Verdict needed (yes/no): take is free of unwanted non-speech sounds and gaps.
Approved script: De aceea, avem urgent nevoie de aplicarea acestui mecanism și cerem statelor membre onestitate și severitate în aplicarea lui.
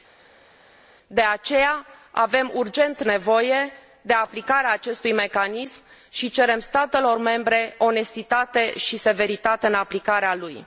yes